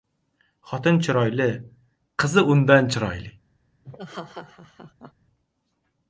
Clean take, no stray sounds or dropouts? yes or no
no